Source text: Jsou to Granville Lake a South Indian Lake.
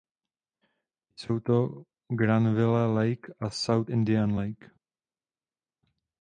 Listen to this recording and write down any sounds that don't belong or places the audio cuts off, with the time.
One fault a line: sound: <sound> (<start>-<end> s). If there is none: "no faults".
no faults